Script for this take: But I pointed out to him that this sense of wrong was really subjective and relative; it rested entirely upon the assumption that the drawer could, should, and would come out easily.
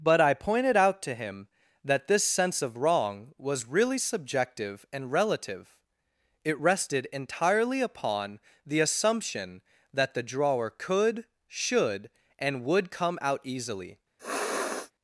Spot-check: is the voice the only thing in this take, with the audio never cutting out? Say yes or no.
no